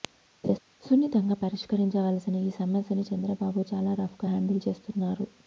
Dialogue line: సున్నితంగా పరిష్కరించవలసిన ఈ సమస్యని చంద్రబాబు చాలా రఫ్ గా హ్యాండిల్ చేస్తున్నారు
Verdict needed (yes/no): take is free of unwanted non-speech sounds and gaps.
no